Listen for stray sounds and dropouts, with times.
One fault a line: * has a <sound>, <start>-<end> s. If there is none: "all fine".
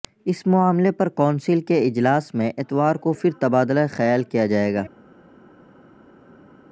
all fine